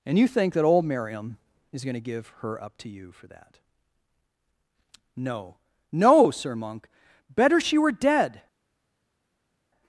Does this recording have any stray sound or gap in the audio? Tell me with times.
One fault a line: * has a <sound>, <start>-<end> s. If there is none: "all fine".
all fine